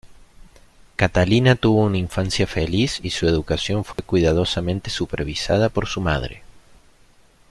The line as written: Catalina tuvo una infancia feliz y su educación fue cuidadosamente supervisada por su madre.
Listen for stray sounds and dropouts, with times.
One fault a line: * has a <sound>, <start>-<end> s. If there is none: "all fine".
* has a dropout, 3.9-4.0 s